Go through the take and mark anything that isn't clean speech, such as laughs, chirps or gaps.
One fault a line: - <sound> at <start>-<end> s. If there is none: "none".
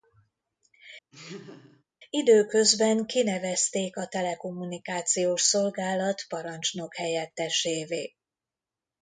- laugh at 1.1-1.8 s